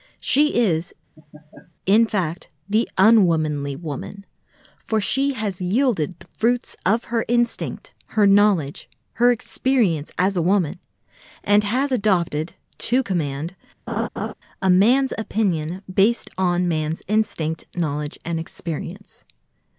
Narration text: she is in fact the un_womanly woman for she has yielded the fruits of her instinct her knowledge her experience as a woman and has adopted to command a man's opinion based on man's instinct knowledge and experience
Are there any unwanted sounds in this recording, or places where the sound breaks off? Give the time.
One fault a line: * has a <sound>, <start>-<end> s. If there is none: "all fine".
* has a laugh, 1.2-1.7 s
* has a laugh, 13.9-14.3 s